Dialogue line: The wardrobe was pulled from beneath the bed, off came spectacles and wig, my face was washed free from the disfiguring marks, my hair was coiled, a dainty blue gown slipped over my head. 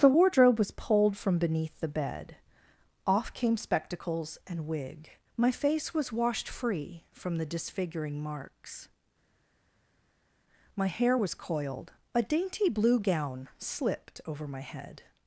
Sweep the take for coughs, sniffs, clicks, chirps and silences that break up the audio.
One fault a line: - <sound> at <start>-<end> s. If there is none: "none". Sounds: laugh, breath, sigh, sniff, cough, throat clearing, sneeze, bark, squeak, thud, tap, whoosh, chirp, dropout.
none